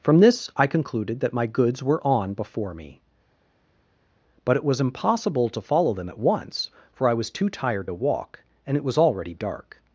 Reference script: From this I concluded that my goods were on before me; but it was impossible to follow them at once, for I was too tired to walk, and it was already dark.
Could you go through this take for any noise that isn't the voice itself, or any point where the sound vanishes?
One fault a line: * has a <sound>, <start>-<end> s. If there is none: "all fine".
all fine